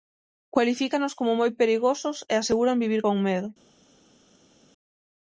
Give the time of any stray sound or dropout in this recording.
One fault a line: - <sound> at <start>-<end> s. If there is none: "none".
none